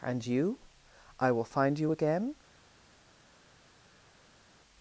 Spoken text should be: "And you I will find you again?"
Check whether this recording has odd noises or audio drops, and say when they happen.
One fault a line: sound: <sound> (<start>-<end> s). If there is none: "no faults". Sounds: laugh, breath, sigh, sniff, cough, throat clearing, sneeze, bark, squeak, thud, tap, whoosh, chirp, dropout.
no faults